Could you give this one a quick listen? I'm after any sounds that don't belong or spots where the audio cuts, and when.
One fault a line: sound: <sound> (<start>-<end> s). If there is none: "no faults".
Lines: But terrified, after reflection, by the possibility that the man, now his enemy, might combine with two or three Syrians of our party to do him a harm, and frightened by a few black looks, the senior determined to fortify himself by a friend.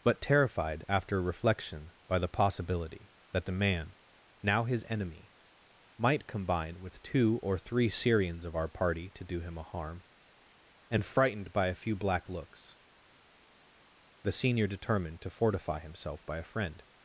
no faults